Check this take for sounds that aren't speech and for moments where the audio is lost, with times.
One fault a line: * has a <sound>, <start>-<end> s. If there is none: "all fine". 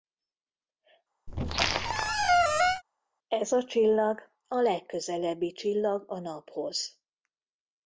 * has a squeak, 1.3-2.8 s